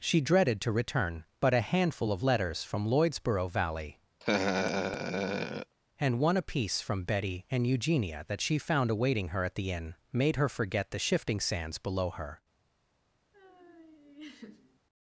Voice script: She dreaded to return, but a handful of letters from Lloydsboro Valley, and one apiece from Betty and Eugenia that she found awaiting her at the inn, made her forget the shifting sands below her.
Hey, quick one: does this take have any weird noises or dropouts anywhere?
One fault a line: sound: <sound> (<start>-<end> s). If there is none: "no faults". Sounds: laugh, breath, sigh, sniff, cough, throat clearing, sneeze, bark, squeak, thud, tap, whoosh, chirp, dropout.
sound: laugh (4.2-5.7 s)
sound: laugh (13.3-14.8 s)